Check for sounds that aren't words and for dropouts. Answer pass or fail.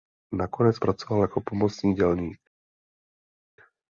pass